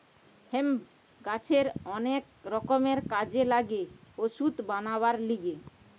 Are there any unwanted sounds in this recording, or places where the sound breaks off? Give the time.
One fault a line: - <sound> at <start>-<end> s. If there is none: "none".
none